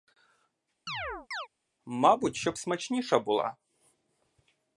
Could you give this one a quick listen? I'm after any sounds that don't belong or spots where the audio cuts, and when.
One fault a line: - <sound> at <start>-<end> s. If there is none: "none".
- chirp at 0.9-1.5 s